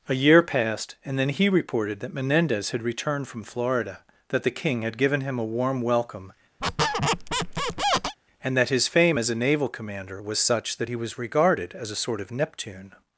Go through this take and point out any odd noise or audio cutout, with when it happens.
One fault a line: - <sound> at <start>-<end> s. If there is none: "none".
- squeak at 6.6-8.2 s